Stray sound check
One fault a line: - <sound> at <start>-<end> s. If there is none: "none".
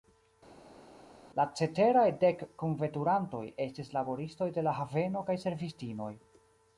none